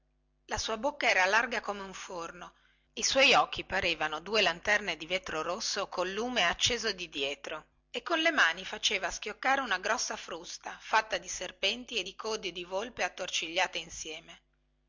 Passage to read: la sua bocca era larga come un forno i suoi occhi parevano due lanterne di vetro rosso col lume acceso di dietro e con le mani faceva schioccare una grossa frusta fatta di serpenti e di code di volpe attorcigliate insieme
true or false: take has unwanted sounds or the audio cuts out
false